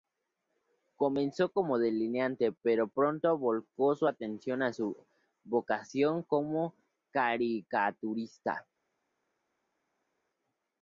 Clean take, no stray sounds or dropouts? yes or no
yes